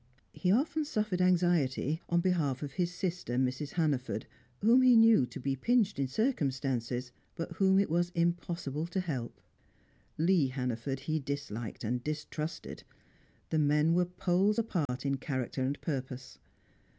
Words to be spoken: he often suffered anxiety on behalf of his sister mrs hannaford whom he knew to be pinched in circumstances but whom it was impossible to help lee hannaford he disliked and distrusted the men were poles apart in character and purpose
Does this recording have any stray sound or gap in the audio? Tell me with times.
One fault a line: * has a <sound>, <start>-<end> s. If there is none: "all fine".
* has a dropout, 14.9-14.9 s